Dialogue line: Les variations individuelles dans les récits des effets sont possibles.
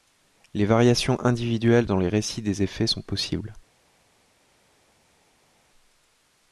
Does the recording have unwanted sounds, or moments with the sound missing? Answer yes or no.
no